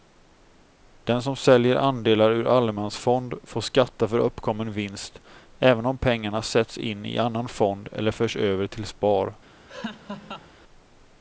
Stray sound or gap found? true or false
true